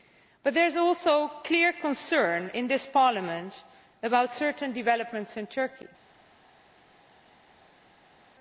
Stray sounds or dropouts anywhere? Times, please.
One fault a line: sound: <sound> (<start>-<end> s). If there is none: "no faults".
no faults